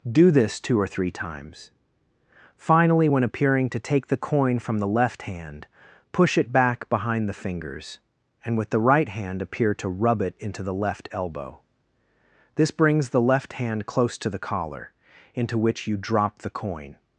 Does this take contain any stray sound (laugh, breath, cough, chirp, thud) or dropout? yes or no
no